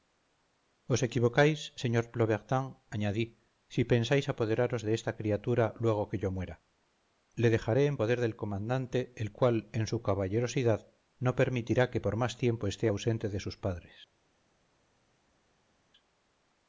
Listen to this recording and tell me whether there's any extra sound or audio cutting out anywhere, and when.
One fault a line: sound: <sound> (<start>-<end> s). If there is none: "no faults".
no faults